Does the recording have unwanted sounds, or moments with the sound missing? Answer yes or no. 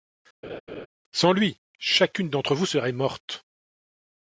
yes